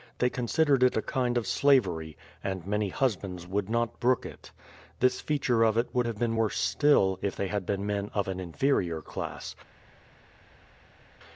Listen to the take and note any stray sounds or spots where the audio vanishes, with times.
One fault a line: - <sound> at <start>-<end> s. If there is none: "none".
none